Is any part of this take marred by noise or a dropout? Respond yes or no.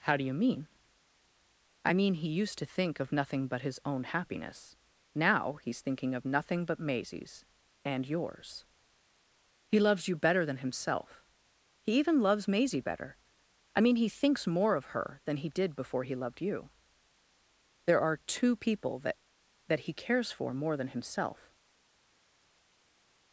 no